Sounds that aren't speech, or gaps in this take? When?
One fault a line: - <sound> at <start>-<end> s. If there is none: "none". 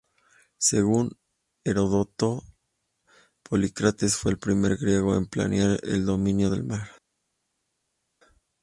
none